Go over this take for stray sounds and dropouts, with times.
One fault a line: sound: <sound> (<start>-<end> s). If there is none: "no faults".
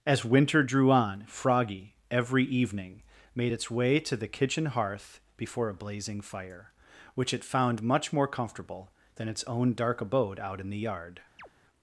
sound: chirp (11.4-11.5 s)